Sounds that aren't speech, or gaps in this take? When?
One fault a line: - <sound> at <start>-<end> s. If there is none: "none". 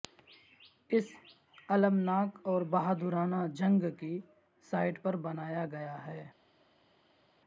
none